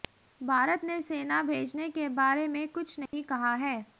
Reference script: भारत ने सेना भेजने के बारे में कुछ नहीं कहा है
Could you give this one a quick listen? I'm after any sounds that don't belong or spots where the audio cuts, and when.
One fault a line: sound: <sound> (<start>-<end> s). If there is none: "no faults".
sound: dropout (3.1-3.1 s)